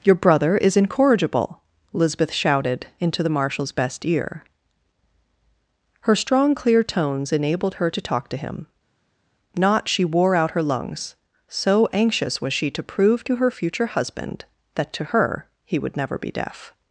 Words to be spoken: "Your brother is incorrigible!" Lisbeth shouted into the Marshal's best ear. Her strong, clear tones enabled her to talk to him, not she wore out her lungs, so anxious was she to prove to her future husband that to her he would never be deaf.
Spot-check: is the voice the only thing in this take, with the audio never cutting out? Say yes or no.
yes